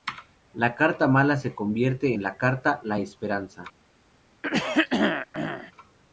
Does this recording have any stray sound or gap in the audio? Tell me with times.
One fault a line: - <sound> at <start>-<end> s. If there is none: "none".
- throat clearing at 4.4-5.7 s